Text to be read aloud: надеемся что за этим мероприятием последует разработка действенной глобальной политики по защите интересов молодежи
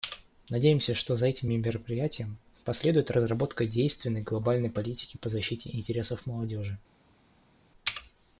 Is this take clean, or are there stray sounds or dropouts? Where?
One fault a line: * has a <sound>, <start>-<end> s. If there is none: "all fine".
all fine